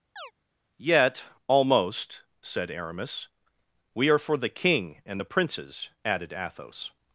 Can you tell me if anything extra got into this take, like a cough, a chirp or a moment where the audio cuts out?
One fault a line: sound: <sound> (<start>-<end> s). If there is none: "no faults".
sound: chirp (0.2-0.3 s)